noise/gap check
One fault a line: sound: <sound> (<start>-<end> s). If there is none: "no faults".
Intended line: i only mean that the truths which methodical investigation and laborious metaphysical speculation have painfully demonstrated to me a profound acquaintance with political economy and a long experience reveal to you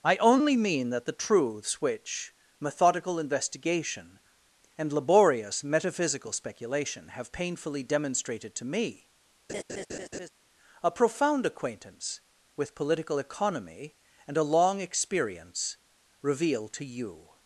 sound: laugh (9.5-10.3 s)